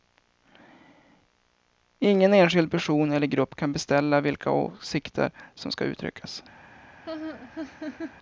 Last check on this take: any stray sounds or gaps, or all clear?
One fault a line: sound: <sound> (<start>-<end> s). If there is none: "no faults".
sound: laugh (7.0-8.2 s)